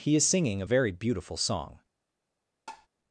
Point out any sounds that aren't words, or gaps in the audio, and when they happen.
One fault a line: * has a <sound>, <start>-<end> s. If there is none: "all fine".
* has a tap, 2.7-2.9 s